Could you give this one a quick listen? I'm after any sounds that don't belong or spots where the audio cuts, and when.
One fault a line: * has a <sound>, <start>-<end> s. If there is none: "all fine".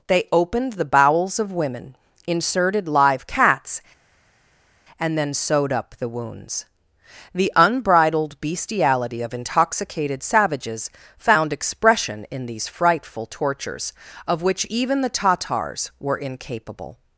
all fine